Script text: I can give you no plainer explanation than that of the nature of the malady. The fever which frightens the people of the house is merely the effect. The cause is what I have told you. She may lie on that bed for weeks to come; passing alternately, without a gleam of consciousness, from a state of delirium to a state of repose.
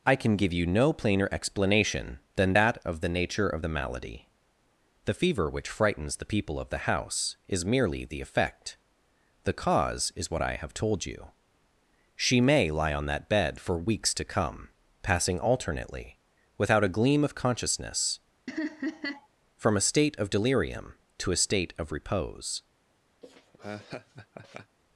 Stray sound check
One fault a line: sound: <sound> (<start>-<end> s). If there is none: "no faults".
sound: laugh (18.5-19.3 s)
sound: laugh (23.2-24.8 s)